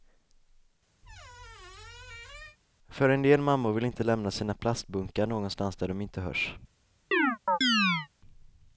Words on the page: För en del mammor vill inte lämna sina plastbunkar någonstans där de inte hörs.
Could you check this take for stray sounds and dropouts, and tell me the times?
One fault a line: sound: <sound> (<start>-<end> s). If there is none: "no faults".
sound: squeak (1.0-2.6 s)
sound: chirp (7.1-8.1 s)